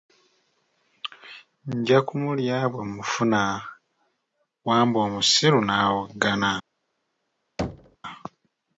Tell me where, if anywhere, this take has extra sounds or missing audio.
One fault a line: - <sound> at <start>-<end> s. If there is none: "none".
- thud at 7.6-8.0 s